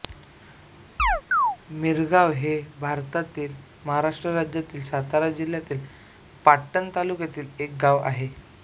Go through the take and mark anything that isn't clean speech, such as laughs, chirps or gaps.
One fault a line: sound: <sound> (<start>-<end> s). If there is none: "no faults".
sound: chirp (1.0-1.6 s)